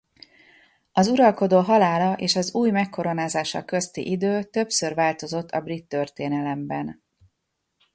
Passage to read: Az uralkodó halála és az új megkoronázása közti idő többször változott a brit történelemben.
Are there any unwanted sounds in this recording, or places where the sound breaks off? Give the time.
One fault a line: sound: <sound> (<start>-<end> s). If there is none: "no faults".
no faults